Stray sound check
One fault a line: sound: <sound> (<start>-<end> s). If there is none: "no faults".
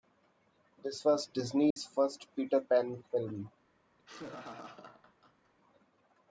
sound: dropout (1.7-1.8 s)
sound: laugh (4.0-5.5 s)